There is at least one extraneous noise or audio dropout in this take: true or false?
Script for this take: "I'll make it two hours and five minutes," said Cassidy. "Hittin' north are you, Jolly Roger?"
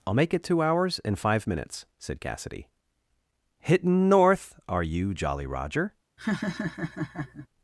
true